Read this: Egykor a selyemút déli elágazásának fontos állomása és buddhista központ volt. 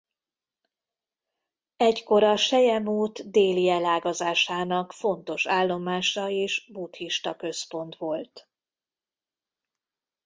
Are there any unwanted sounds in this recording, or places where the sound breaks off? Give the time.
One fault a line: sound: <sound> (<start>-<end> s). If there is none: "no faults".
no faults